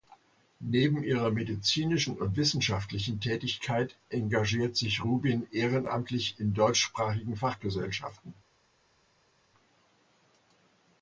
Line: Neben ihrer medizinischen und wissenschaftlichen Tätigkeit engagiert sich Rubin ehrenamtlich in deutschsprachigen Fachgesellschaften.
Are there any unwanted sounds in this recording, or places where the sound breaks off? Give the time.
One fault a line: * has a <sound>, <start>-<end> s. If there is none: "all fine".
all fine